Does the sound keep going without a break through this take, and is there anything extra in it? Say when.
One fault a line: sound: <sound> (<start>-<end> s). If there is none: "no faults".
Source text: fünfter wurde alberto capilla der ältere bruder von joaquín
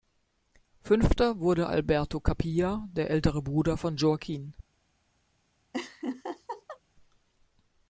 sound: laugh (5.7-6.8 s)